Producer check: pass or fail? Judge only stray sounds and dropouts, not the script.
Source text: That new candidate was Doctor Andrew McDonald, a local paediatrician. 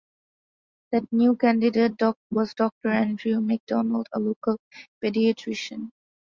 pass